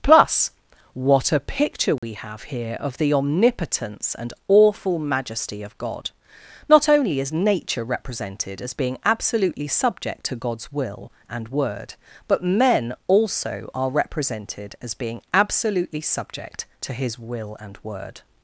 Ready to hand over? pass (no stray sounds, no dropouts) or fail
fail